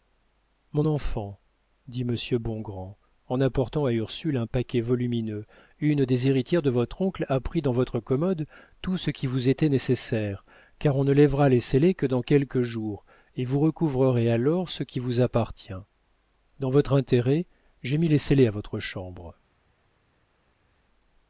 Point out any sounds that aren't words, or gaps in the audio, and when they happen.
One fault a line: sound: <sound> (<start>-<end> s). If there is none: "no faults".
no faults